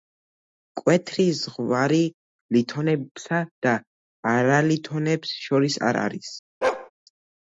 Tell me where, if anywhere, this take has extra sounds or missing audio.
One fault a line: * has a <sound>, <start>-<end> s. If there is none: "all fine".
* has a bark, 6.6-6.9 s